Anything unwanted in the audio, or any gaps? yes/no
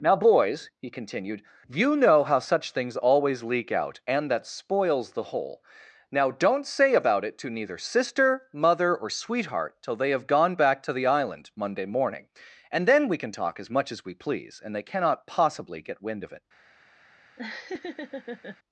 yes